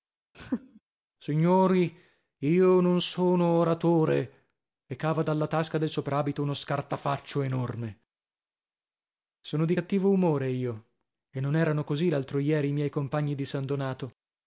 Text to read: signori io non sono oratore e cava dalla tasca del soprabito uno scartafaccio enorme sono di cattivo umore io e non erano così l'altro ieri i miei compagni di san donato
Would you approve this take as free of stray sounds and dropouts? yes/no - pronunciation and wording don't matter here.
no